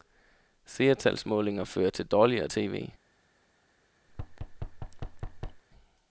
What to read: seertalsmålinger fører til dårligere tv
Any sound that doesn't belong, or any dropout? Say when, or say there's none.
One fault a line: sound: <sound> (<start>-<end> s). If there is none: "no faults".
sound: thud (4.1-5.6 s)